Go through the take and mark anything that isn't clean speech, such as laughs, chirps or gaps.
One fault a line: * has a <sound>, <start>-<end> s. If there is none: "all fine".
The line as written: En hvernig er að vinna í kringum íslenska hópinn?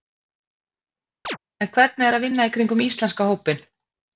* has a chirp, 1.2-1.4 s